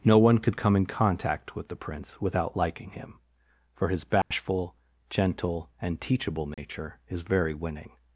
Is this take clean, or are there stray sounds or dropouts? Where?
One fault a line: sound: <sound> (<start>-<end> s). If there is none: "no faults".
sound: dropout (4.2-4.3 s)
sound: dropout (6.5-6.6 s)